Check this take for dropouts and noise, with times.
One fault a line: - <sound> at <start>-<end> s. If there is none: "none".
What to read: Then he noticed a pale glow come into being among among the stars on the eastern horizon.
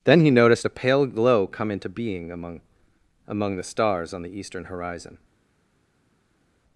none